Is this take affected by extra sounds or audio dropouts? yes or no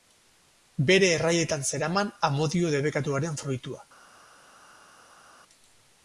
no